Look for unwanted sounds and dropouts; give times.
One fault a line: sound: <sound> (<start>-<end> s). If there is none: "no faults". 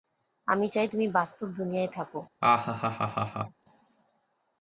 sound: laugh (2.4-3.6 s)